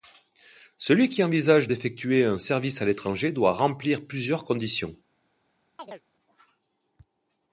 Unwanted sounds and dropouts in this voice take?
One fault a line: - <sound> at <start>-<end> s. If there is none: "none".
- chirp at 5.8-6.0 s